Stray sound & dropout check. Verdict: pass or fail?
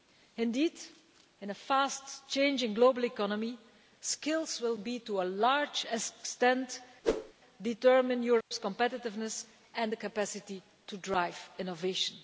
fail